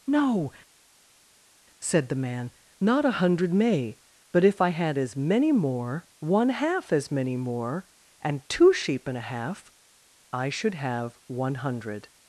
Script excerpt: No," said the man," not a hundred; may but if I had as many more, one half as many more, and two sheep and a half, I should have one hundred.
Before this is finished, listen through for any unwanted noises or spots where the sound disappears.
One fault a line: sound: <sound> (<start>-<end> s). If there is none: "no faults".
no faults